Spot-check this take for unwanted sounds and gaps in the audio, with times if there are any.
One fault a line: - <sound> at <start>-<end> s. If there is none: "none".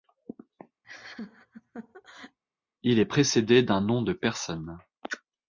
- laugh at 0.8-2.4 s